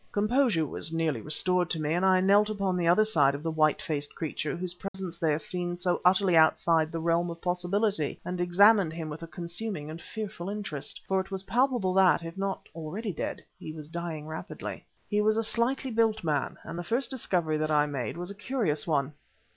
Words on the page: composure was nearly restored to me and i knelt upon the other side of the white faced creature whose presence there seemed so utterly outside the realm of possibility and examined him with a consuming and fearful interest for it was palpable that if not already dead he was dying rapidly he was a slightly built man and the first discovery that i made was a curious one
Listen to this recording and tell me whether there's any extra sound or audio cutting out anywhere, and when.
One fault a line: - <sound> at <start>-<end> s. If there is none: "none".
- dropout at 4.9-4.9 s